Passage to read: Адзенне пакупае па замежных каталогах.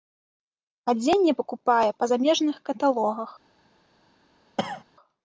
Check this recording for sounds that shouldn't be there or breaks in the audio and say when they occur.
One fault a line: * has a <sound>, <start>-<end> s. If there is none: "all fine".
* has a cough, 4.6-4.8 s